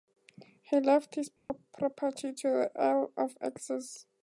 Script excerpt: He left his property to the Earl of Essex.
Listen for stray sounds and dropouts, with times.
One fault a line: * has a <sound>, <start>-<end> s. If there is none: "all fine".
* has a dropout, 1.4-1.5 s